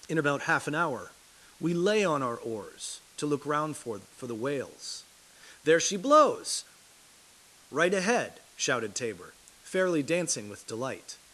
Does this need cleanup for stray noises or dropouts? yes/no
no